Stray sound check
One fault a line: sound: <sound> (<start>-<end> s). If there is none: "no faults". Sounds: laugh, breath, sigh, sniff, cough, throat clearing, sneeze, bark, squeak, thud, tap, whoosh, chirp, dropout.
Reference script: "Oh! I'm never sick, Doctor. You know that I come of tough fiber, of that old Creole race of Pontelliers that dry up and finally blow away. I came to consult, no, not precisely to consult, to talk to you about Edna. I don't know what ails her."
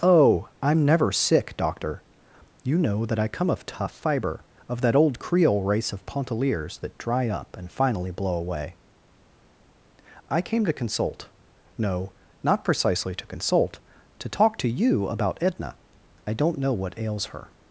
no faults